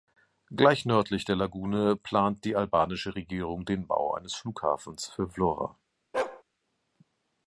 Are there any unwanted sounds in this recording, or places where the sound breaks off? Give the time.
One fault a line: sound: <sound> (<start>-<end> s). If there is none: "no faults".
sound: bark (6.1-6.4 s)